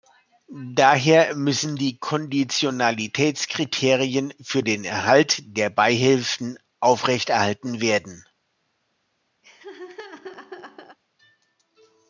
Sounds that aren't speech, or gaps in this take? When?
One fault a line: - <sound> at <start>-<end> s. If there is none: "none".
- laugh at 9.4-11.0 s